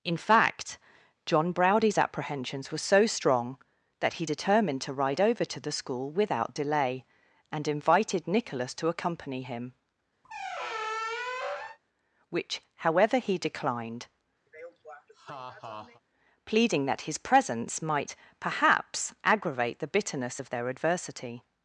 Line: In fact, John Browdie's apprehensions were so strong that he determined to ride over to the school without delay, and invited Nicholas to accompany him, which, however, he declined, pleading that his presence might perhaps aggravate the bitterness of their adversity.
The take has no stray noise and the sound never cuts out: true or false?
false